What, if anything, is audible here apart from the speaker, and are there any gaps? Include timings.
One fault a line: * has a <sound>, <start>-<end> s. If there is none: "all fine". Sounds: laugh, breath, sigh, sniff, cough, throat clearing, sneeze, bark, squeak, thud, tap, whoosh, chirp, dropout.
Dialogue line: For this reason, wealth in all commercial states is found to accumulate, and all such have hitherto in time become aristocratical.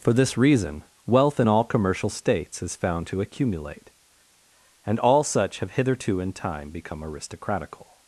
all fine